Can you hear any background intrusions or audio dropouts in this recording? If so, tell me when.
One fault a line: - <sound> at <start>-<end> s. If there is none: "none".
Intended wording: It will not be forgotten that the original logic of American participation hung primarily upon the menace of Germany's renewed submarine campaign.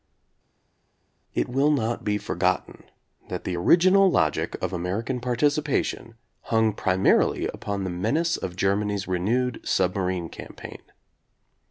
none